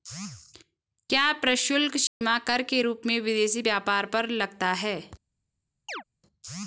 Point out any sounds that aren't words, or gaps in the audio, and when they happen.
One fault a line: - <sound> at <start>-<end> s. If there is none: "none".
- dropout at 2.1-2.2 s
- chirp at 5.9-6.0 s